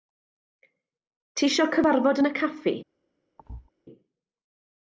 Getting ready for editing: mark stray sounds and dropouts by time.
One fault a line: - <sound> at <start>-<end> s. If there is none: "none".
- thud at 3.4-3.7 s